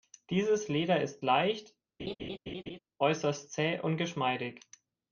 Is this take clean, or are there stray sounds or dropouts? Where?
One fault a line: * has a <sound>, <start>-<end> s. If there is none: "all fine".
* has a laugh, 2.0-2.8 s